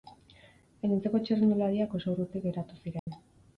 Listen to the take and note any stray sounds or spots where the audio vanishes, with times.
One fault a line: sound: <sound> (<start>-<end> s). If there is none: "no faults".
sound: dropout (3.0-3.1 s)